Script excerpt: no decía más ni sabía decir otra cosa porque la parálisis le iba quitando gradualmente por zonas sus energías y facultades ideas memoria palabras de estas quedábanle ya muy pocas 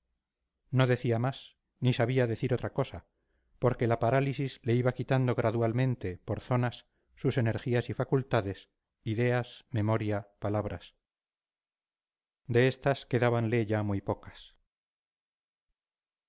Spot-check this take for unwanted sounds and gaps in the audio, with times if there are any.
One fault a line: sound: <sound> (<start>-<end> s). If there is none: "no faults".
no faults